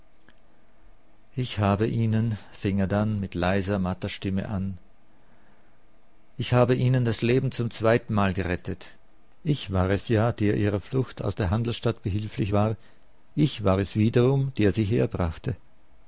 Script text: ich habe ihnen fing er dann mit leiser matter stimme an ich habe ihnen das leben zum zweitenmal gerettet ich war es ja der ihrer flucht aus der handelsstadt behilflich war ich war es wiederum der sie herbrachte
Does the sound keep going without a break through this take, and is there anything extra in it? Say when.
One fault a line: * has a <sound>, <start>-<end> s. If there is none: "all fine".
all fine